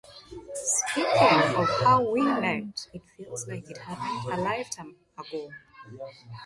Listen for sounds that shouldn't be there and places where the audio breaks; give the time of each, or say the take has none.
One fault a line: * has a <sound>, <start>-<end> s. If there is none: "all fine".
all fine